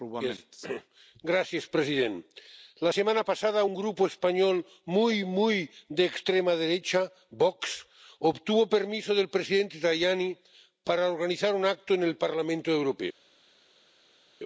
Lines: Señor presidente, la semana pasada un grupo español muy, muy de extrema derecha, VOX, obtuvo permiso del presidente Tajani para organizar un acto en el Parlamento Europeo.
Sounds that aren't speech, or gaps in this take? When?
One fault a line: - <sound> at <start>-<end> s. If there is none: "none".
none